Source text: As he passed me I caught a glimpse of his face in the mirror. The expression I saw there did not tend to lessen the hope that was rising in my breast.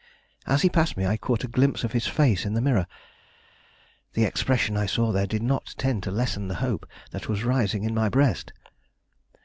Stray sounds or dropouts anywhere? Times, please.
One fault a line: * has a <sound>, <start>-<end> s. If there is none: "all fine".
all fine